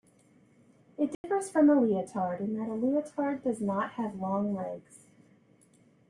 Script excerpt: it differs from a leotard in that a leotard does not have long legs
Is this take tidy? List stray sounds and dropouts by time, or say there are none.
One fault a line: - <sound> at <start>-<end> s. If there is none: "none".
- dropout at 1.1-1.2 s